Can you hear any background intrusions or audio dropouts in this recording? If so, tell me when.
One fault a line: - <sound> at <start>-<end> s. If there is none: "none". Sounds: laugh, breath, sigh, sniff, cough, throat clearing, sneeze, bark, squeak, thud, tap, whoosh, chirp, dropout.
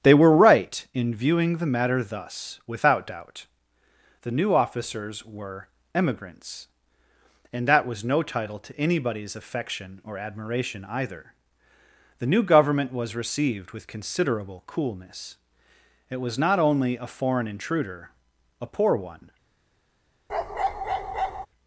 - bark at 20.3-21.5 s